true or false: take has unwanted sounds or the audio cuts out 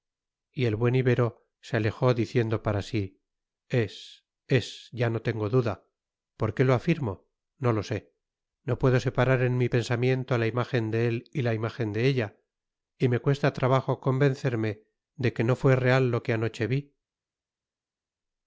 false